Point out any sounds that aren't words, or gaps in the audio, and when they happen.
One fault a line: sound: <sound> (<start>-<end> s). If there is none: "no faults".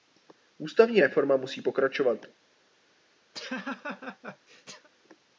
sound: laugh (3.3-4.9 s)